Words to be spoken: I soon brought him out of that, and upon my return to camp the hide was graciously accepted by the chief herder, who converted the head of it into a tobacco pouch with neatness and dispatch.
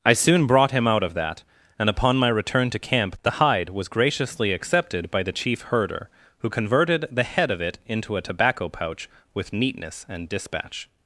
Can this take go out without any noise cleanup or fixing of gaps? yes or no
yes